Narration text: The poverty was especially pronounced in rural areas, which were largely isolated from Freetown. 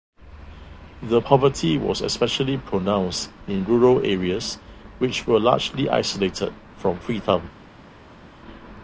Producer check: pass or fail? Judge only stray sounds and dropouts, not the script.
pass